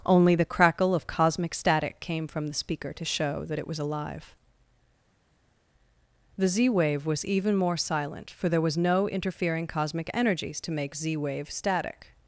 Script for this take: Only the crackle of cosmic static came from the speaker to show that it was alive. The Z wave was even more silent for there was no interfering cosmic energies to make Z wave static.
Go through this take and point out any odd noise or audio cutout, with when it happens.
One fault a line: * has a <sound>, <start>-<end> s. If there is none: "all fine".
all fine